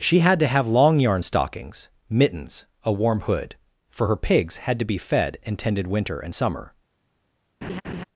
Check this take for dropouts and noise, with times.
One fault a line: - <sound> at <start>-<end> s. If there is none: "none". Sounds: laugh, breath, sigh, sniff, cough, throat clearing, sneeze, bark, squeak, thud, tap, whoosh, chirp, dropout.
- laugh at 7.6-8.0 s